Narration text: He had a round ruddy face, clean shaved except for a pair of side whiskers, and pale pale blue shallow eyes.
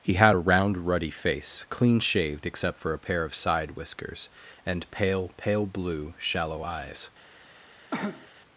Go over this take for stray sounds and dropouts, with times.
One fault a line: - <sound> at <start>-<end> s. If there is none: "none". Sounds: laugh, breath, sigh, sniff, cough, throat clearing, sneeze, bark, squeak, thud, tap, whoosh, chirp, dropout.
- cough at 7.9-8.3 s